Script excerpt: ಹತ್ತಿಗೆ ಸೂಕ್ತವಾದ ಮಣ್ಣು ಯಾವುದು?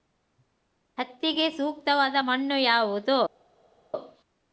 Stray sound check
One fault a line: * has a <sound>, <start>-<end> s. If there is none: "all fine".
all fine